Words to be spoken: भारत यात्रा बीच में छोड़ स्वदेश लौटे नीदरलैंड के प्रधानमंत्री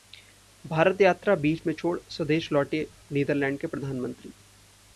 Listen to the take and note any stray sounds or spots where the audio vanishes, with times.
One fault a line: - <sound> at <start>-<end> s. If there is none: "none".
none